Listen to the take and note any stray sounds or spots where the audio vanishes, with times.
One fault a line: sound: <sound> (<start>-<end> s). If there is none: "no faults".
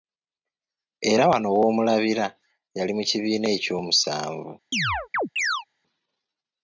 sound: chirp (4.7-5.7 s)